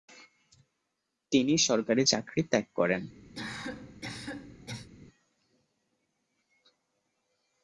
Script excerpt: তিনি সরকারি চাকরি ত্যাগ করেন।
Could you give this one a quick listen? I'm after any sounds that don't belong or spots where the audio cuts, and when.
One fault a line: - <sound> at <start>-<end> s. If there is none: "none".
- cough at 3.3-4.9 s